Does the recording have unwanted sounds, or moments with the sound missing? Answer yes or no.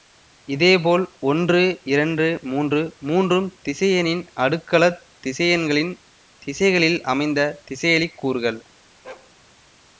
yes